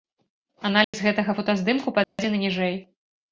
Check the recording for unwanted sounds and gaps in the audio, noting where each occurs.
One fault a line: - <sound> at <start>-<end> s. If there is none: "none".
- dropout at 0.8-0.9 s
- dropout at 2.0-2.2 s